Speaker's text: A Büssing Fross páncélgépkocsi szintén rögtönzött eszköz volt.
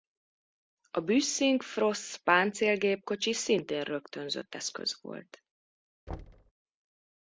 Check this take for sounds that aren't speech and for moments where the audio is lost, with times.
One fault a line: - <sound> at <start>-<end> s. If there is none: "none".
- thud at 6.1-6.5 s